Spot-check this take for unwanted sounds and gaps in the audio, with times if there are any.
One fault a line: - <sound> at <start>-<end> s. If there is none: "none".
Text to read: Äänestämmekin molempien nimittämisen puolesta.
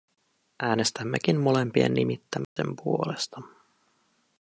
- dropout at 2.4-2.6 s